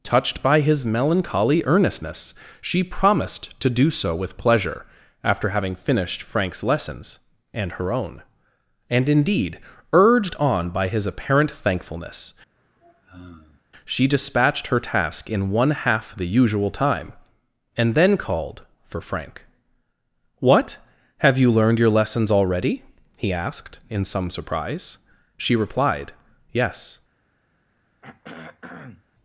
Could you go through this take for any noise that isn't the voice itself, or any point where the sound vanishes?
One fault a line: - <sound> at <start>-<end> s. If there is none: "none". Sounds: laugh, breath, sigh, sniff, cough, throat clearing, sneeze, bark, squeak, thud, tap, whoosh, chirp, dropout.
- sigh at 12.5-13.6 s
- throat clearing at 28.0-29.0 s